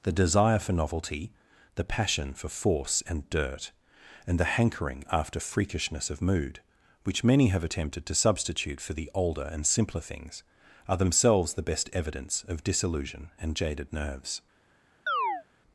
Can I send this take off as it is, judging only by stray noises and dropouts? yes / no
no